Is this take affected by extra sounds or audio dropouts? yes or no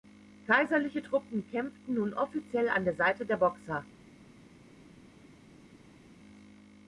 no